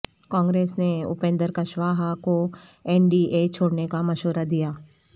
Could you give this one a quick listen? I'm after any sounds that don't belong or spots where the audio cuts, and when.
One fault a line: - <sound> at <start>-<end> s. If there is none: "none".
none